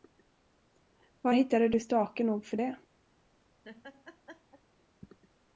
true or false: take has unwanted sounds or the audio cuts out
true